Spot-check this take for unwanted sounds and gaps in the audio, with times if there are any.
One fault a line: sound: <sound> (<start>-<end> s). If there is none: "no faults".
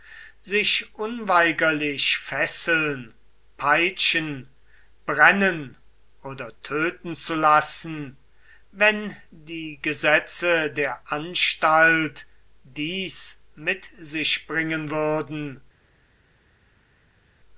no faults